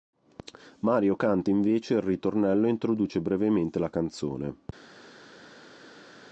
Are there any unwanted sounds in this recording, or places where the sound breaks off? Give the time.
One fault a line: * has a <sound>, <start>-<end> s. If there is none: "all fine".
all fine